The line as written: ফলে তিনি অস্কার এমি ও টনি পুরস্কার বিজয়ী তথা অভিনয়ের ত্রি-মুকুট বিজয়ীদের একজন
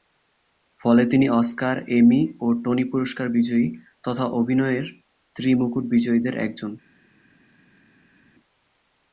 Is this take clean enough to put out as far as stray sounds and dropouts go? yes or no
yes